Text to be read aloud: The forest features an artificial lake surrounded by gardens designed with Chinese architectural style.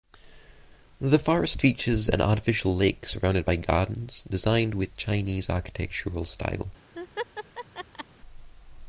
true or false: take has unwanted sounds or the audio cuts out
true